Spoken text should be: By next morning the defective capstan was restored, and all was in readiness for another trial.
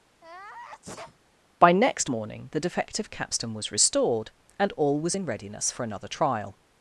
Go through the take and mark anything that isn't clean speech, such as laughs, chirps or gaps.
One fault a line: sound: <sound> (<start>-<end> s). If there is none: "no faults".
sound: sneeze (0.2-1.2 s)